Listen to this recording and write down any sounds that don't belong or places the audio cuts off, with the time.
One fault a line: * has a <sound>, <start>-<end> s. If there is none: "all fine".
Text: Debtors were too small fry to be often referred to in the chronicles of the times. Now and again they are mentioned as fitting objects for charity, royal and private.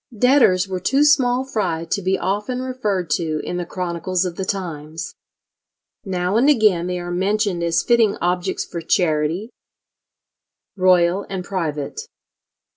all fine